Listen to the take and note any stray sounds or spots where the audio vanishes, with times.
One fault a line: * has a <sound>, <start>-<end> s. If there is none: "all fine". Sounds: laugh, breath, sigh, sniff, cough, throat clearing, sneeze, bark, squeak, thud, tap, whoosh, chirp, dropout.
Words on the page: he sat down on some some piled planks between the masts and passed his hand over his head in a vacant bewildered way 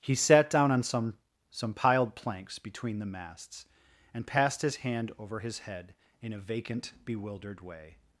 all fine